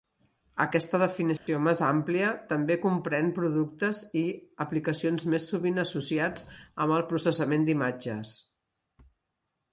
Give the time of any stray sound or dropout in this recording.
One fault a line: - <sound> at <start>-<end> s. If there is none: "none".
- dropout at 1.4-1.5 s